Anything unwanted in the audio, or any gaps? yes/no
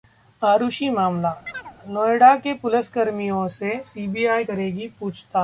yes